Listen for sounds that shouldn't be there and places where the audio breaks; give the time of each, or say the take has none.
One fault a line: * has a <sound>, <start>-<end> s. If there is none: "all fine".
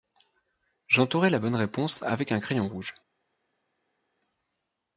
all fine